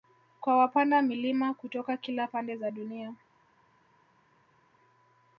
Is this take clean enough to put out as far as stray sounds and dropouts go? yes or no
yes